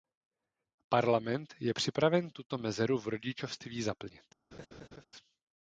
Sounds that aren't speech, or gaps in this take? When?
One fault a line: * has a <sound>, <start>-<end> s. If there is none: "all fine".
* has a laugh, 4.5-5.1 s